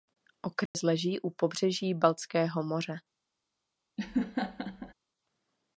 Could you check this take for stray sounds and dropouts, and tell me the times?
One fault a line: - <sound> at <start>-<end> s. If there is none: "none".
- dropout at 0.7-0.7 s
- laugh at 4.0-4.9 s